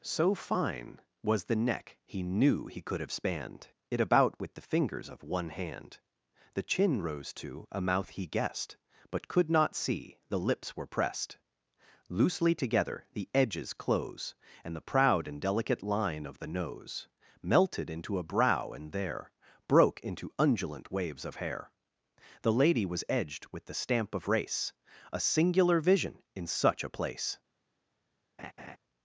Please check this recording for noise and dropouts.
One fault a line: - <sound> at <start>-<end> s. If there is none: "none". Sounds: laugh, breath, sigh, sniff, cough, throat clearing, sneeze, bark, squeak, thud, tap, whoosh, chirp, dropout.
- laugh at 28.4-28.8 s